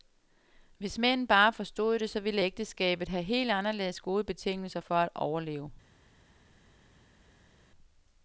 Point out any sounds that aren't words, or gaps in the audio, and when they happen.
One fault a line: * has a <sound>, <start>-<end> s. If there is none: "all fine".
all fine